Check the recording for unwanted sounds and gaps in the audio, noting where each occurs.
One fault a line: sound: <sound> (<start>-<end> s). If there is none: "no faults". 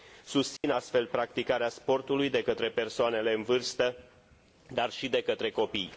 sound: dropout (0.6-0.6 s)